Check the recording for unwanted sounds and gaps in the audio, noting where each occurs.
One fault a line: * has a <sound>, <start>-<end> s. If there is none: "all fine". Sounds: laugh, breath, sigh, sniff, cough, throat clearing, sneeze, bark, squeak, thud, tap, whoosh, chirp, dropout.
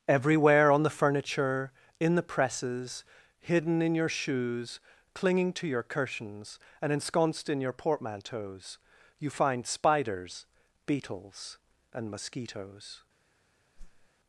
* has a whoosh, 13.8-14.1 s